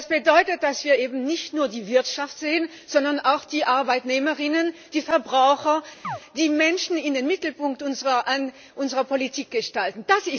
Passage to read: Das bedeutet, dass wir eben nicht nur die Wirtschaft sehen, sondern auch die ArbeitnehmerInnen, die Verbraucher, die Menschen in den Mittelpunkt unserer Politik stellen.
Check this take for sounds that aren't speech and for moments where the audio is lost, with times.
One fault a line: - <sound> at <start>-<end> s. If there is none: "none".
- chirp at 6.0-6.2 s